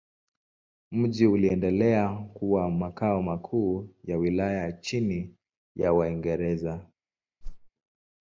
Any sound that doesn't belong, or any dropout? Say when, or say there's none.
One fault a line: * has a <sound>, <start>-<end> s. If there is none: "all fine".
* has a whoosh, 7.4-7.7 s